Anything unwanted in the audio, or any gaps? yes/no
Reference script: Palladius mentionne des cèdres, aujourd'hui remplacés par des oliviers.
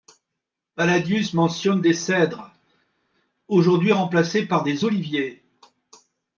no